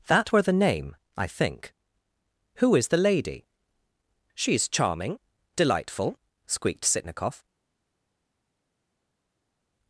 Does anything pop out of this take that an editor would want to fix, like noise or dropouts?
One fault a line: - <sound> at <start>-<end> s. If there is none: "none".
none